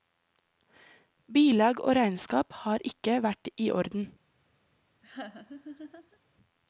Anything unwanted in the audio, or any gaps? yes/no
yes